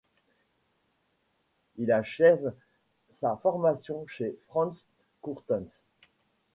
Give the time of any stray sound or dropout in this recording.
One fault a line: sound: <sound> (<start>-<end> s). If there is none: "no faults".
no faults